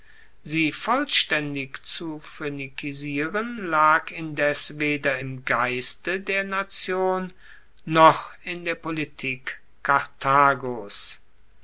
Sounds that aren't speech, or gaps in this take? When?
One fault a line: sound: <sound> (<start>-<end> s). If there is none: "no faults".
no faults